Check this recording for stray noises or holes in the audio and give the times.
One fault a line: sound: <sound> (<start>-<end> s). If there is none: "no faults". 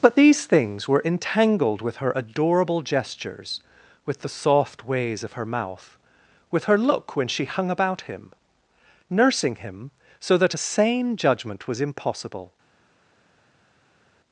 no faults